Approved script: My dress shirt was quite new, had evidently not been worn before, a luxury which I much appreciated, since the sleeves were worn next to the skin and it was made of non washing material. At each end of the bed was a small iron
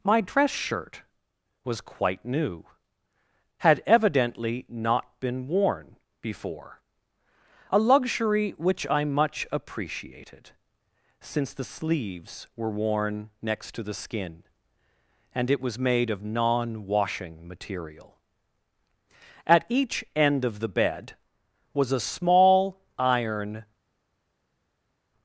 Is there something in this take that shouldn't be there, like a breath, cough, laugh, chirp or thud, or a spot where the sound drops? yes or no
no